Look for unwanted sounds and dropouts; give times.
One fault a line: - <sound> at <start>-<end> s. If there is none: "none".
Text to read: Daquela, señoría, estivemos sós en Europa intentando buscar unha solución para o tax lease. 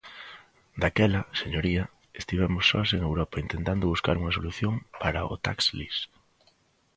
none